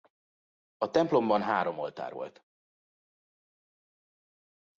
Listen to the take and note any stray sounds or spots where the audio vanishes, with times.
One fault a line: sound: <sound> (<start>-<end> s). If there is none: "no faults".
no faults